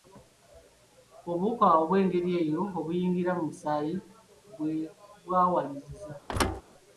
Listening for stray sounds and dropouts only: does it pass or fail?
fail